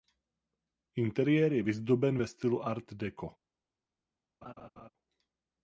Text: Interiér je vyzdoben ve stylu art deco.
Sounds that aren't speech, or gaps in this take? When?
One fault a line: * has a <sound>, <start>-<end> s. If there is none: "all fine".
* has a laugh, 4.4-4.9 s